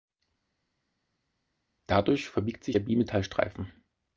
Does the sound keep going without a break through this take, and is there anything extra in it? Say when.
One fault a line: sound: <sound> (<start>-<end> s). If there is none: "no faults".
no faults